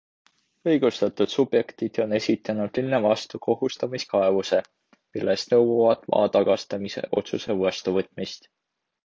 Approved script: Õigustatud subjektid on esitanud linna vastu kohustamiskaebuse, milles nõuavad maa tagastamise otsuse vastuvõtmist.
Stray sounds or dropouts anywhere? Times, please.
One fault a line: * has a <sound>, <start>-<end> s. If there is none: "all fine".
all fine